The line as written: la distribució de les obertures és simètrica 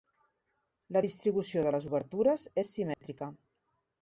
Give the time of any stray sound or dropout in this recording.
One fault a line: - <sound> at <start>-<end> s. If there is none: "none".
- dropout at 2.9-3.0 s